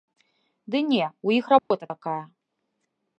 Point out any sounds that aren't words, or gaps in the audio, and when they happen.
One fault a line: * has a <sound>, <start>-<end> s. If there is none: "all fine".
* has a dropout, 1.6-1.7 s